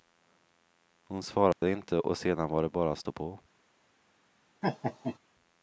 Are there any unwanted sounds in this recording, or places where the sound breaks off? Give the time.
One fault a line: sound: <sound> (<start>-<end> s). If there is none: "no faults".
sound: dropout (1.5-1.6 s)
sound: laugh (4.6-5.2 s)